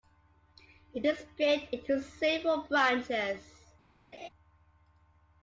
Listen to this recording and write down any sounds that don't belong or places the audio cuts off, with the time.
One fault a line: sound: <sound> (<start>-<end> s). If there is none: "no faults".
sound: laugh (4.1-4.3 s)